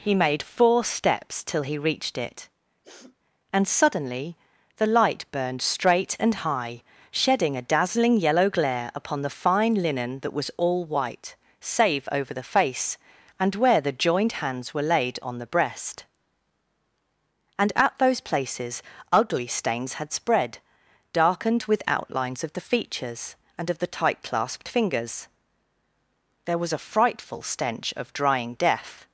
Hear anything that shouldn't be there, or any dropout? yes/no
yes